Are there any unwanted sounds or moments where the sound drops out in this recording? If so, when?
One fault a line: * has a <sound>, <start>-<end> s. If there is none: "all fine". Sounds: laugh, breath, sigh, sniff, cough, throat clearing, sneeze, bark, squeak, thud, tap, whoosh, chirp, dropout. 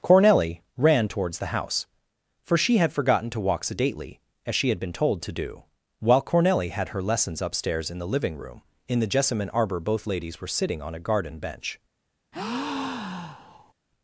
* has a breath, 12.3-13.7 s